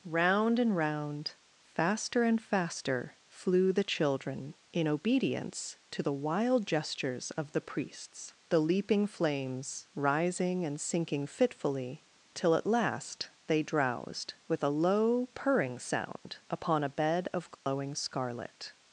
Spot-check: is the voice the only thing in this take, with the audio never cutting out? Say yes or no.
no